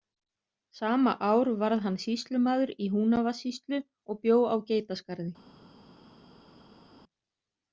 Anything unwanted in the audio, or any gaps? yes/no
no